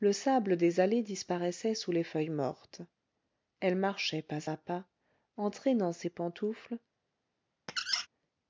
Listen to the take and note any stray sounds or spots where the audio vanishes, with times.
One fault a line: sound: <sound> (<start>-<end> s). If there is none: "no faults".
sound: squeak (7.7-8.1 s)